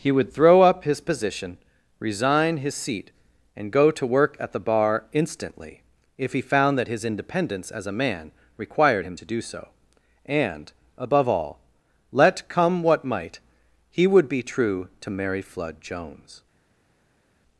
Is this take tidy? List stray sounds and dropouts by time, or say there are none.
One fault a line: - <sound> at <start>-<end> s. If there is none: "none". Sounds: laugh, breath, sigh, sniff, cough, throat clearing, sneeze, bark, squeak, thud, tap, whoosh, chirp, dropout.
none